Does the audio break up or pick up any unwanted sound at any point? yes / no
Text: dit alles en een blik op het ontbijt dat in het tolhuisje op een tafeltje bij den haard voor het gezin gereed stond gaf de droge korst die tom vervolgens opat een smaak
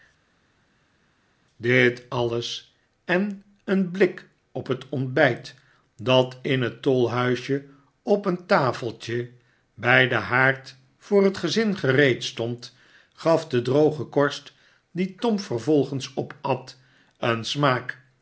no